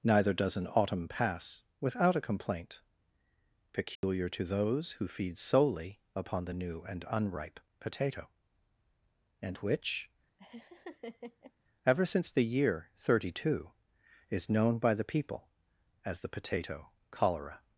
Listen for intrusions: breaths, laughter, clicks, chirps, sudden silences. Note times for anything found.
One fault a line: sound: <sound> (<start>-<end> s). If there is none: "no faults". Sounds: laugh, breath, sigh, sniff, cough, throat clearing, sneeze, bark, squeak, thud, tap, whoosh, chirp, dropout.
sound: dropout (4.0-4.0 s)
sound: laugh (10.4-11.5 s)